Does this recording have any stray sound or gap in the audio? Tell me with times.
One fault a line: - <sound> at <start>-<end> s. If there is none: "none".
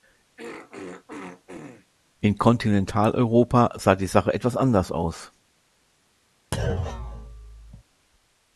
- throat clearing at 0.4-1.9 s
- thud at 6.5-7.8 s